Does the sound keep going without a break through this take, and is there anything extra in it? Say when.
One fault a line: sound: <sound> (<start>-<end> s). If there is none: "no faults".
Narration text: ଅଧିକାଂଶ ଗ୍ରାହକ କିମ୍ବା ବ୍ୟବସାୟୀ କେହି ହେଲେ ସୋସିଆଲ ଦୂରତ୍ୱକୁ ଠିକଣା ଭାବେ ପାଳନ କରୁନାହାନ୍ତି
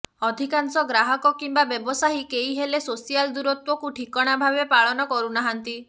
no faults